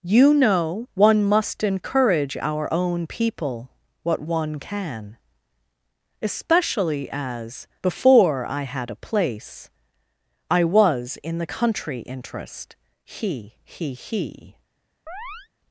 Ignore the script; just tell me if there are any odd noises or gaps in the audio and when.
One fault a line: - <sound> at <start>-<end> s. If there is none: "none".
- chirp at 15.1-15.5 s